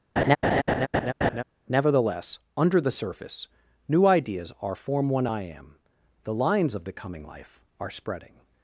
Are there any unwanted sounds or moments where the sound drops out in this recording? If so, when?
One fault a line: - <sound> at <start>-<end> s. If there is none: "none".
- laugh at 0.2-1.4 s